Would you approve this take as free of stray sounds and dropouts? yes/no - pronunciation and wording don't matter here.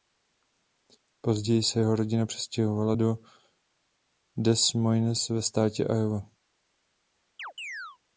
no